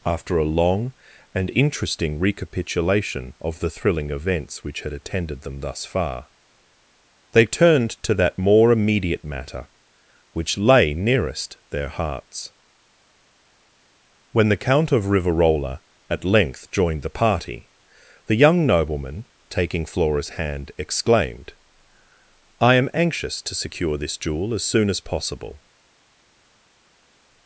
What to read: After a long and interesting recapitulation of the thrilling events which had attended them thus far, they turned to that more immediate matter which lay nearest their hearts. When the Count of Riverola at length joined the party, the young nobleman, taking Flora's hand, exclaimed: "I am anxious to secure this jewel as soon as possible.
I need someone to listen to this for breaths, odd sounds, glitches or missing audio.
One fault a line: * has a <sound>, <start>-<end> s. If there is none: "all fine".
all fine